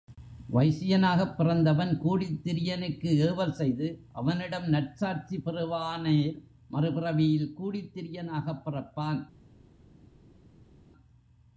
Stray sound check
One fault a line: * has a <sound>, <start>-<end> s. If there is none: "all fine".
all fine